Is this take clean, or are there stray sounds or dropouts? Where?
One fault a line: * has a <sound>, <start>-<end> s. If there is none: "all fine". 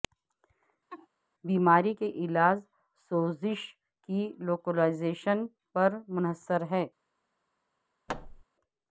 * has a laugh, 0.9-1.1 s
* has a thud, 8.1-8.4 s